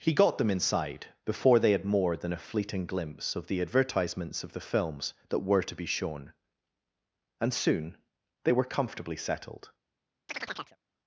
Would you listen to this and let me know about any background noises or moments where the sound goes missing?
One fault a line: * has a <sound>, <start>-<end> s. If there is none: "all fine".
* has a chirp, 10.3-10.8 s